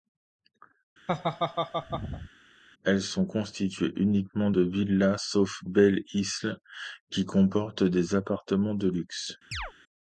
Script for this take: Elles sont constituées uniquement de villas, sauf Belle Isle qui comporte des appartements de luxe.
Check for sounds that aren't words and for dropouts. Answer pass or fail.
fail